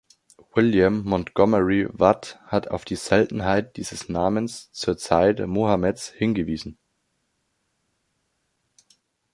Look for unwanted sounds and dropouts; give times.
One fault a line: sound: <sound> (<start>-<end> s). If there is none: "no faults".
no faults